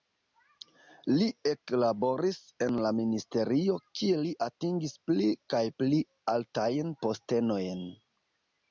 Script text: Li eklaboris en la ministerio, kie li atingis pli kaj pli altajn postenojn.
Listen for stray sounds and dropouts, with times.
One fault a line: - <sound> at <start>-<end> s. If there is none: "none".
none